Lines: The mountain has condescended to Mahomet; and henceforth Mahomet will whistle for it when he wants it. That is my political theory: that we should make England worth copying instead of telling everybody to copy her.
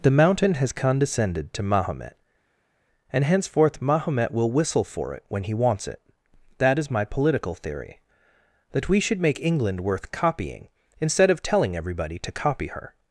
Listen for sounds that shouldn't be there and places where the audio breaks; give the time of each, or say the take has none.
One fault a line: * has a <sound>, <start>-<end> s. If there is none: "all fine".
all fine